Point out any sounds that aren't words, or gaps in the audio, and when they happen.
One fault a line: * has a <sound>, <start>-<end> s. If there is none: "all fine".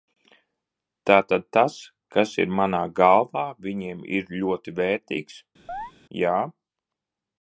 * has a chirp, 5.7-5.9 s